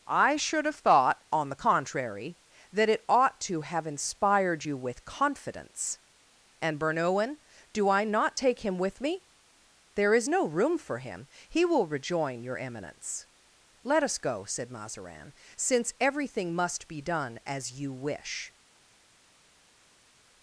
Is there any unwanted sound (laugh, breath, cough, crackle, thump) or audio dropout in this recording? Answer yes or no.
no